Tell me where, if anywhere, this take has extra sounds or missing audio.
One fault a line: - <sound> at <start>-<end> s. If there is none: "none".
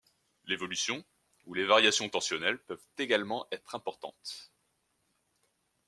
none